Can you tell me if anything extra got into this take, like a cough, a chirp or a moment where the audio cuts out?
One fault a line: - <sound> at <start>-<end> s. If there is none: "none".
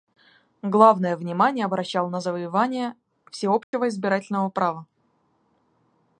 - dropout at 3.6-3.7 s